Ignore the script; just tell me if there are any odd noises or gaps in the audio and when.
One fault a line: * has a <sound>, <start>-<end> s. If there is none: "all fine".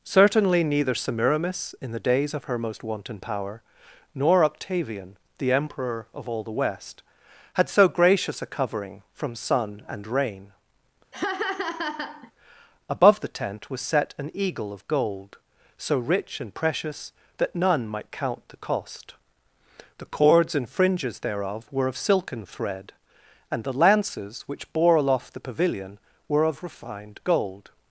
* has a laugh, 11.1-12.3 s